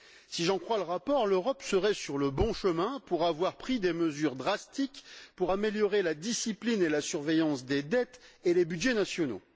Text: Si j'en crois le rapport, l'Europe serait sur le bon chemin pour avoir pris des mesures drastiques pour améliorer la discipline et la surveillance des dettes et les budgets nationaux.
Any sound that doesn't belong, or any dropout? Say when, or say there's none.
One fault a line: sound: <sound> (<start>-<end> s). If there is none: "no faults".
no faults